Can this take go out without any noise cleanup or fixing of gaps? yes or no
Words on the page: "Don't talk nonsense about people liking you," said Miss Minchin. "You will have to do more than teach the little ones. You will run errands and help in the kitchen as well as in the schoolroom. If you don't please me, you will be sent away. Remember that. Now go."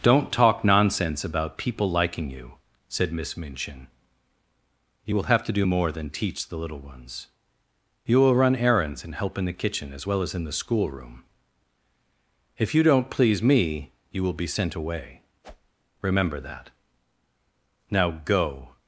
no